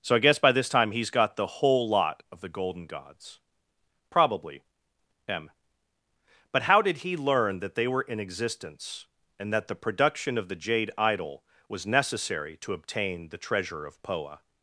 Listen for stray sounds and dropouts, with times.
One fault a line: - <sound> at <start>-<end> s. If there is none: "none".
none